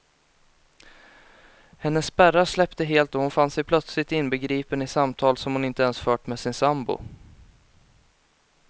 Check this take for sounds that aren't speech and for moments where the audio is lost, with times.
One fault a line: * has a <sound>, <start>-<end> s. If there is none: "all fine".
all fine